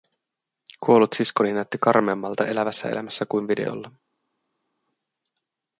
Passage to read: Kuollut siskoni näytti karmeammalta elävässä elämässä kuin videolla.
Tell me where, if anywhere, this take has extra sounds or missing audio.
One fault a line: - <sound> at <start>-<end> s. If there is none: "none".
none